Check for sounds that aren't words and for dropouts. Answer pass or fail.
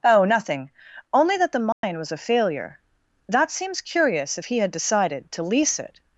fail